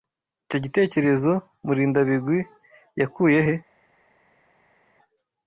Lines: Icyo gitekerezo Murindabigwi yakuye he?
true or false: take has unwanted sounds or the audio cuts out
false